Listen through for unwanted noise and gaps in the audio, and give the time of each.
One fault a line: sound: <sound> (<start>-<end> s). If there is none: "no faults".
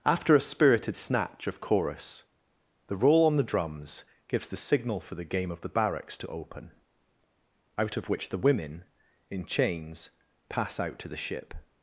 no faults